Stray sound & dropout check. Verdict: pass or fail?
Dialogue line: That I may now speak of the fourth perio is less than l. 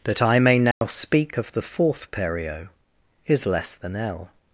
fail